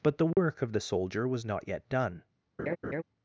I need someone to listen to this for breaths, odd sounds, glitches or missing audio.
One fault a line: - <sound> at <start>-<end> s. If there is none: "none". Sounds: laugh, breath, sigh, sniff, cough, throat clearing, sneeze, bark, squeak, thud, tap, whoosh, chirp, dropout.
- dropout at 0.3-0.4 s
- laugh at 2.6-3.0 s